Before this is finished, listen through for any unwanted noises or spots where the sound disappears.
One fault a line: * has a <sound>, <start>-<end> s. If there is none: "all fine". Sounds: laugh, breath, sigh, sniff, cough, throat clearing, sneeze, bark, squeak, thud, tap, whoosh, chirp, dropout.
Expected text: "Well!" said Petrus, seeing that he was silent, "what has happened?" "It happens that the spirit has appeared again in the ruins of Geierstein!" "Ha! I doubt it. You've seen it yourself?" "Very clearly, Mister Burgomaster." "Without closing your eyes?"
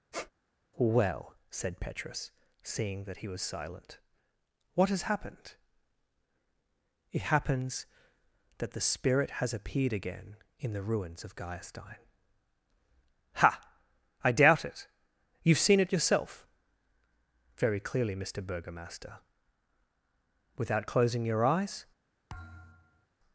* has a squeak, 0.1-0.3 s
* has a thud, 22.3-23.1 s